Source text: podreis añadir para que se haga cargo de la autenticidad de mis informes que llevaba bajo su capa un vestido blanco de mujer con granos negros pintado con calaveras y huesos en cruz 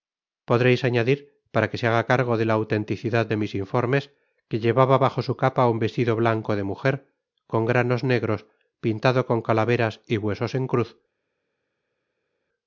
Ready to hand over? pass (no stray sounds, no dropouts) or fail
pass